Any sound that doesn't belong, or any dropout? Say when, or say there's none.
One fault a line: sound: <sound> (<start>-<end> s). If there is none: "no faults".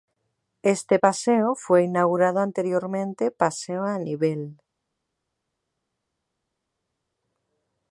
no faults